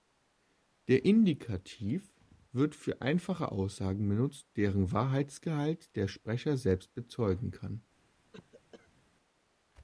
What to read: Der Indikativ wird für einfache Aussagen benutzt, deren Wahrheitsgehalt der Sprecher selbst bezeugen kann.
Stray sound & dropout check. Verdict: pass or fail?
fail